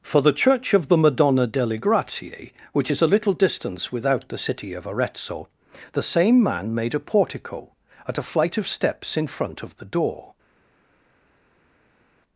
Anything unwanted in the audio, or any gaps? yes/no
no